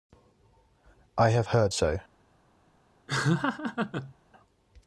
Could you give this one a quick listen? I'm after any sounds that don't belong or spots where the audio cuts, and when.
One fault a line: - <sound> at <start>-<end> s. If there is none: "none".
- laugh at 3.1-4.1 s